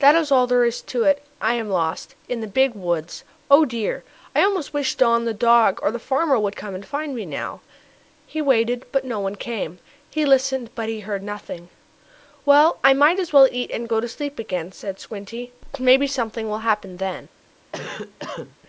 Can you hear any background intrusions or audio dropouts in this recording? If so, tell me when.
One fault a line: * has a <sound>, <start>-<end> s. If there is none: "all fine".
* has a cough, 17.7-18.6 s